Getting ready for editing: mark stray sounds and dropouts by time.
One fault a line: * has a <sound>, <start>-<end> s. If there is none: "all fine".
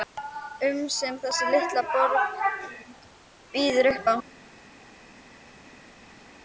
all fine